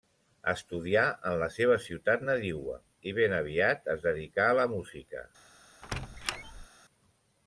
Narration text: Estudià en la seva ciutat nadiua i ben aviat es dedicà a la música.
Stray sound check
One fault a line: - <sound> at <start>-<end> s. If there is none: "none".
- squeak at 5.8-6.7 s